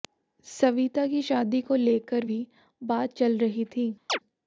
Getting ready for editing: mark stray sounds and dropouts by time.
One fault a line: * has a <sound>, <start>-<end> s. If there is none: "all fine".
* has a chirp, 4.1-4.2 s